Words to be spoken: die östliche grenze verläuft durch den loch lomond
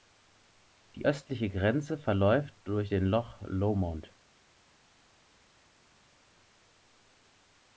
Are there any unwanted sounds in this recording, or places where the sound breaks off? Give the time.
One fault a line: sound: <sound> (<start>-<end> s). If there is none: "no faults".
no faults